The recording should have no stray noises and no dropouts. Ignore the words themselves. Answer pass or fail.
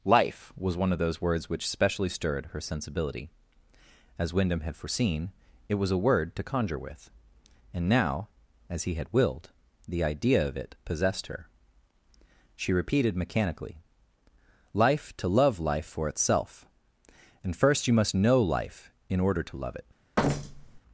fail